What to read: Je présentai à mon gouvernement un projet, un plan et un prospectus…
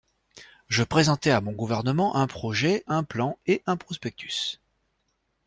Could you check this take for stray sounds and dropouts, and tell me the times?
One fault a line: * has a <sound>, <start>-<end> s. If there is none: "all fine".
all fine